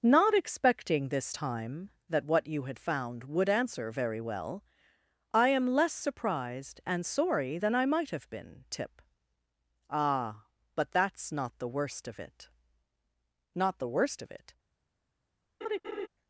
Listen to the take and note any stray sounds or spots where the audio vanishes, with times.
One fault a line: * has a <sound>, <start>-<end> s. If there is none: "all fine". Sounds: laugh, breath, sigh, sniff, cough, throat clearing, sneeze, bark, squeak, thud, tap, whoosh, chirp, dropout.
* has a laugh, 15.6-16.1 s